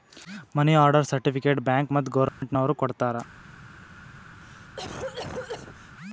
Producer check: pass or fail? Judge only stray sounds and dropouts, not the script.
fail